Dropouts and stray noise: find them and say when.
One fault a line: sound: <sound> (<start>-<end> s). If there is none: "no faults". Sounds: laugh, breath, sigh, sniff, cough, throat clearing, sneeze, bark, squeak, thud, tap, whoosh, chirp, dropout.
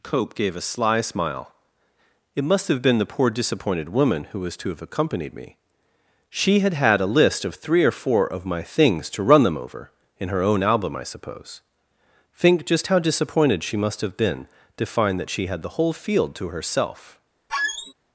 sound: squeak (17.5-17.9 s)